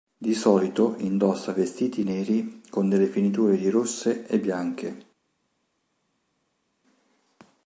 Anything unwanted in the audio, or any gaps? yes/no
no